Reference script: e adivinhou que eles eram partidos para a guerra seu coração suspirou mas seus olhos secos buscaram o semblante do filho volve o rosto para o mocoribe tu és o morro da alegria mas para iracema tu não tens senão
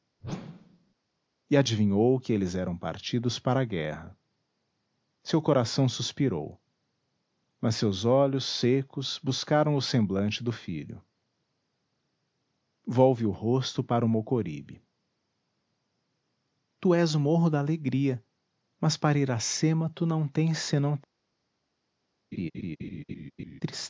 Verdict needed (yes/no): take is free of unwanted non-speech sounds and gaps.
no